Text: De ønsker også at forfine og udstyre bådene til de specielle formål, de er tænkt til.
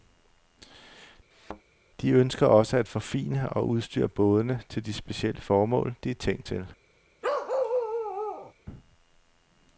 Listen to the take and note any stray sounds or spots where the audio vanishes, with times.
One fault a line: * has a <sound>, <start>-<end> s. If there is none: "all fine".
* has a thud, 1.3-1.6 s
* has a bark, 7.2-8.5 s